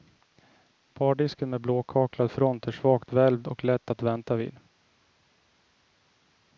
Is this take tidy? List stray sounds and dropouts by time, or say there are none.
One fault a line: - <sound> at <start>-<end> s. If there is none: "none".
none